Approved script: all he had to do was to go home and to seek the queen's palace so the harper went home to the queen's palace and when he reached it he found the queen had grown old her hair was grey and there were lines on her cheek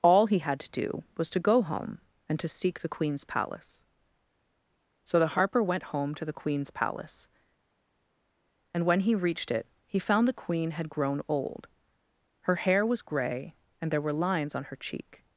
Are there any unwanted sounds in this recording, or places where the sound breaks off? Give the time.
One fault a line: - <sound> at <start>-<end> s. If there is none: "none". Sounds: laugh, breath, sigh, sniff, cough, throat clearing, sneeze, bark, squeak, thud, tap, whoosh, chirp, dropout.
none